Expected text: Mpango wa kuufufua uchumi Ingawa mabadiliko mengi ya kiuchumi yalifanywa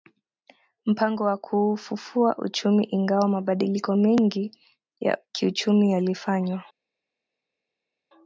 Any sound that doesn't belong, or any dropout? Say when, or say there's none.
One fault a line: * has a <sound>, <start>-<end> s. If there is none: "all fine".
all fine